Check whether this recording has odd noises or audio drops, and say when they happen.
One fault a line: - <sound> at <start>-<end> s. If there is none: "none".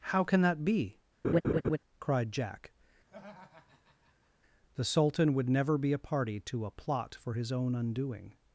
- laugh at 1.2-1.8 s
- laugh at 3.1-4.3 s